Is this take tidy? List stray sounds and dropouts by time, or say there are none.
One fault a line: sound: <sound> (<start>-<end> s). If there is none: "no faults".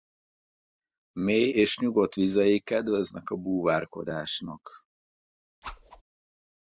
sound: whoosh (5.6-6.0 s)